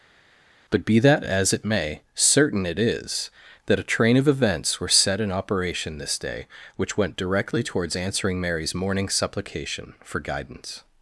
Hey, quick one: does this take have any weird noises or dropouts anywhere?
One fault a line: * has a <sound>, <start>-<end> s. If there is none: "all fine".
all fine